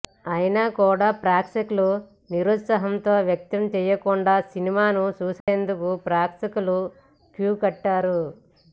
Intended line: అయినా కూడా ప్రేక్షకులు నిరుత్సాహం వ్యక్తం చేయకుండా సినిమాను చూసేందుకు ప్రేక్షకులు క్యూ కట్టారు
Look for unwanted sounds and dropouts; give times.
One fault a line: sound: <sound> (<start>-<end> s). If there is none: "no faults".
sound: dropout (5.4-5.5 s)